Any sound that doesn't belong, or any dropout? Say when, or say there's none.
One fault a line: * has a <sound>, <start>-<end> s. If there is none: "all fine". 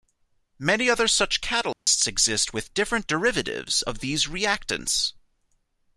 * has a dropout, 1.7-1.9 s